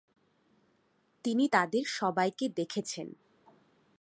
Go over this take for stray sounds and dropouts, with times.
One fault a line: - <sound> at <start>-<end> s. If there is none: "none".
none